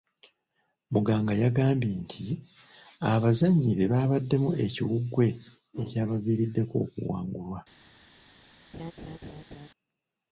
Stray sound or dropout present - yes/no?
yes